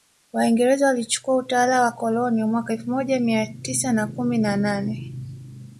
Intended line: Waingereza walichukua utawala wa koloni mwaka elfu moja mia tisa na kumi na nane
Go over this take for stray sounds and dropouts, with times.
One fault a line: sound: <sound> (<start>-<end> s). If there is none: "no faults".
no faults